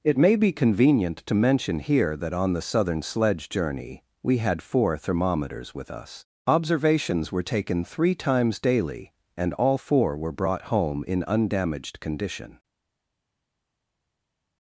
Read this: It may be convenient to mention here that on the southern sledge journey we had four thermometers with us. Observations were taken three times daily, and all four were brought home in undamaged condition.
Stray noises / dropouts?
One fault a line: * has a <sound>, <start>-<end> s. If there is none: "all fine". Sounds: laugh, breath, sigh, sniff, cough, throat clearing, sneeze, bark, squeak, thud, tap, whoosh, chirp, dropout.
all fine